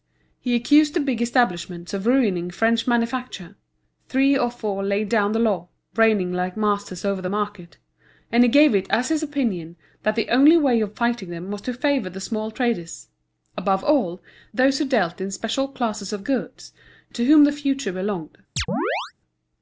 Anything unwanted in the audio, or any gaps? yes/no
yes